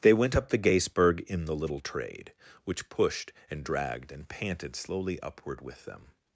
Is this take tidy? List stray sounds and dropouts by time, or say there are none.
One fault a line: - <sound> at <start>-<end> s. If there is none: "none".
none